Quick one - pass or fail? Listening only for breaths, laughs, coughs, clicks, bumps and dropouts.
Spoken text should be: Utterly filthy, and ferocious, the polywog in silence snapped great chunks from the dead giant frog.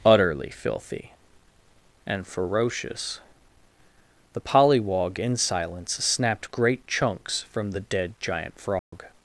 fail